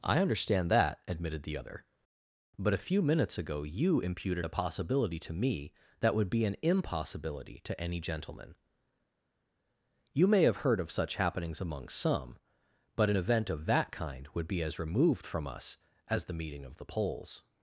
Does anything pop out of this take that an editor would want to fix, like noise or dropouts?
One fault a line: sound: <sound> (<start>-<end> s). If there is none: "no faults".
no faults